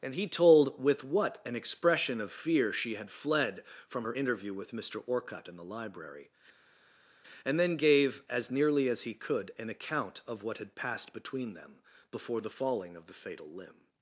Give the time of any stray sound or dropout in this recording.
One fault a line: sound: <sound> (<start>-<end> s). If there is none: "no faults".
no faults